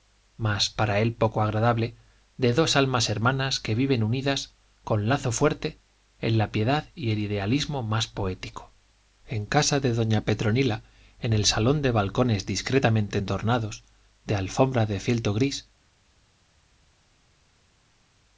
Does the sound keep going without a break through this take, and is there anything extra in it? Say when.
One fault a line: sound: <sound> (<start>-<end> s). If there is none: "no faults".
no faults